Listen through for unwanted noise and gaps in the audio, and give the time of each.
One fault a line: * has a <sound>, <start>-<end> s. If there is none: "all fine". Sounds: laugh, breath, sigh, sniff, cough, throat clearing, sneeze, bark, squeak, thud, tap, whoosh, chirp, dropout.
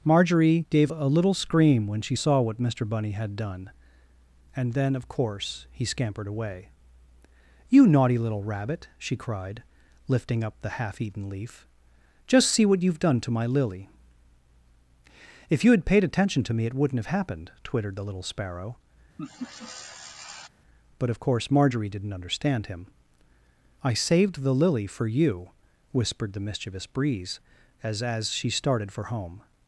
* has a laugh, 19.2-20.5 s